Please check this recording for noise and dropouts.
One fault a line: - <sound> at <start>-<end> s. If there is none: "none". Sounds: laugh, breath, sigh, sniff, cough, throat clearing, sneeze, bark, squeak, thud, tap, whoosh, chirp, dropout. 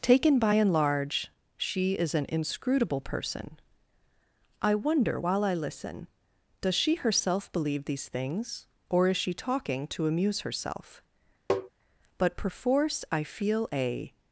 - tap at 11.5-11.7 s